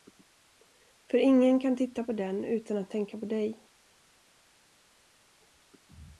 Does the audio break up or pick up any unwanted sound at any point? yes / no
no